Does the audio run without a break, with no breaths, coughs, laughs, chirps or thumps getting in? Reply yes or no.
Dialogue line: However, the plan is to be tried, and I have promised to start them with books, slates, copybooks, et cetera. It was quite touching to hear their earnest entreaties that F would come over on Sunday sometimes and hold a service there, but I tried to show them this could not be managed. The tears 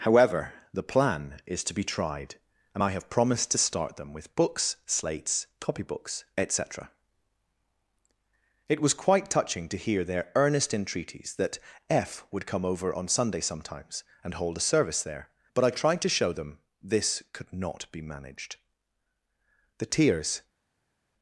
yes